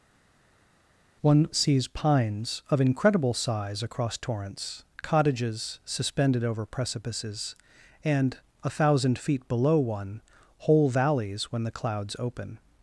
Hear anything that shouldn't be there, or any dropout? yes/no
no